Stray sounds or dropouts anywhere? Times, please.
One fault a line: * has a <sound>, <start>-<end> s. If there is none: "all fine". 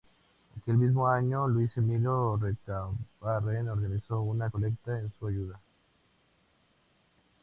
all fine